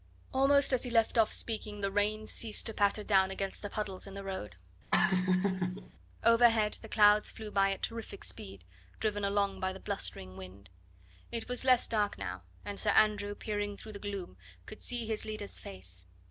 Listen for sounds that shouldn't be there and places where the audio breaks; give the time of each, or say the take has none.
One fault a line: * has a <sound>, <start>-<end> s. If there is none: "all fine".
* has a laugh, 4.9-5.9 s